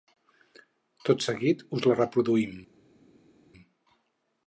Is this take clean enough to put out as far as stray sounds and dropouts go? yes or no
yes